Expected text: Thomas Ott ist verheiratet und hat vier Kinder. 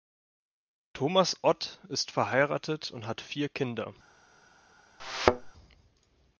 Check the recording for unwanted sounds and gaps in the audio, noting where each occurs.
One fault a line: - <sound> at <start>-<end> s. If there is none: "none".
- thud at 5.0-5.5 s